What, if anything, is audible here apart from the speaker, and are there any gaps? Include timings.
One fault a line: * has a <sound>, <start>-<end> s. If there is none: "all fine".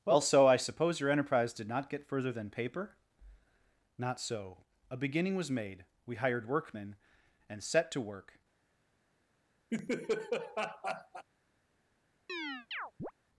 * has a laugh, 9.7-11.2 s
* has a chirp, 12.3-13.1 s